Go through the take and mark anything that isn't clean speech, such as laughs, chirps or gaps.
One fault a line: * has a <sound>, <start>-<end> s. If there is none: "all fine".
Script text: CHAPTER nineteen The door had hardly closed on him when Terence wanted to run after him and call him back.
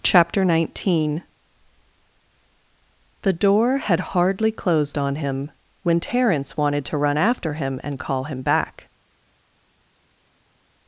all fine